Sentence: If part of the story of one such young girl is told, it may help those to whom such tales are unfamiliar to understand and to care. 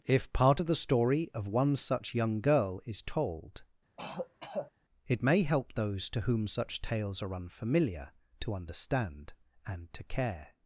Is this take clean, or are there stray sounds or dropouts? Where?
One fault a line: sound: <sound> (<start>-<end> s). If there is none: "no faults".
sound: throat clearing (4.0-4.7 s)